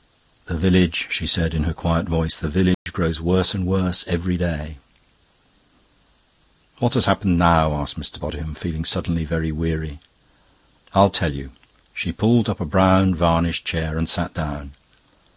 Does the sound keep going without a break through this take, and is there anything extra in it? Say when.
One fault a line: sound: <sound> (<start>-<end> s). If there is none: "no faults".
sound: dropout (2.7-2.9 s)